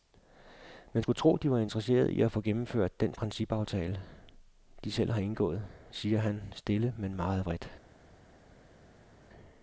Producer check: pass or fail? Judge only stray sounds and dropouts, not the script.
pass